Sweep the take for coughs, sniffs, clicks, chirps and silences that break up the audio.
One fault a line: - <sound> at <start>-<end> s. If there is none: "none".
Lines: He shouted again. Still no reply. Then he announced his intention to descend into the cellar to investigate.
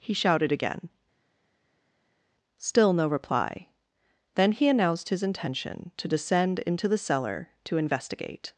none